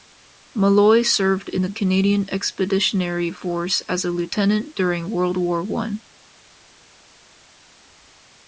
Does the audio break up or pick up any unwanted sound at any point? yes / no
no